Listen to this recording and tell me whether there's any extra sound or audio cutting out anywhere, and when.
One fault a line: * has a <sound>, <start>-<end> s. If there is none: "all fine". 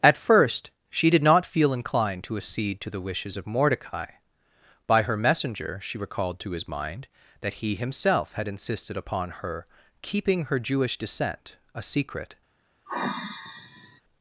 * has a sigh, 12.9-14.0 s